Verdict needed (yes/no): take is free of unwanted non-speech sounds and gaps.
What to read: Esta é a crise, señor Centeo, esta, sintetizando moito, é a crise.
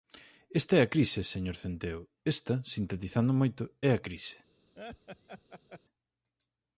no